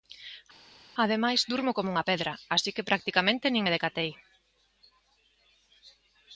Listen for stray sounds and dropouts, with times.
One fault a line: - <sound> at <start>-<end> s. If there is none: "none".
none